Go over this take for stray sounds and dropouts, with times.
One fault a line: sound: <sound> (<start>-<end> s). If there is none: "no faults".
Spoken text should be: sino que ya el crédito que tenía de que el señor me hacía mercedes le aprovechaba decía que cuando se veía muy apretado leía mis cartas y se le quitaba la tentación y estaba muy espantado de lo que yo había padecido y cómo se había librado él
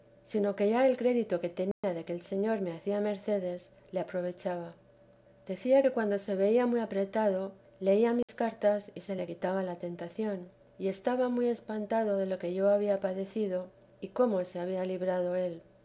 sound: dropout (1.7-1.8 s)
sound: dropout (8.2-8.3 s)